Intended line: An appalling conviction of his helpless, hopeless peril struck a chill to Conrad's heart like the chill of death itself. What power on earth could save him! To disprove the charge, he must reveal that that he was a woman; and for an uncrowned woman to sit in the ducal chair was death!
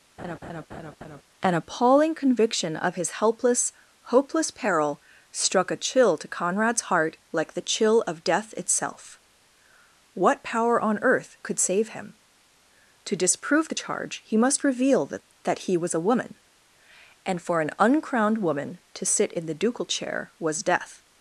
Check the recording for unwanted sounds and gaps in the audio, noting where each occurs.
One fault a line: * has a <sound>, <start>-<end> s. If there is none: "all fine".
* has a laugh, 0.2-1.2 s